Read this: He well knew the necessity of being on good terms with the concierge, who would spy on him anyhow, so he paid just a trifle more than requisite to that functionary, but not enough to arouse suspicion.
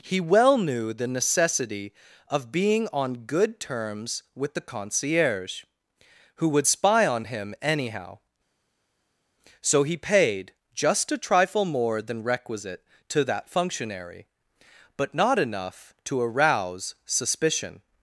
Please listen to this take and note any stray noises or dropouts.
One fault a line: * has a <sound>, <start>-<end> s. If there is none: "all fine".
all fine